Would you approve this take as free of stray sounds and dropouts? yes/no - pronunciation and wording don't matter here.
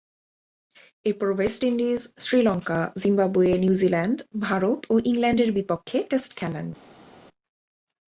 yes